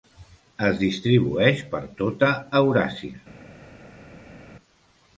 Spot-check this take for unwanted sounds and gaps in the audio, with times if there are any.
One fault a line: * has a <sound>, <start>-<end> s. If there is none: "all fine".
all fine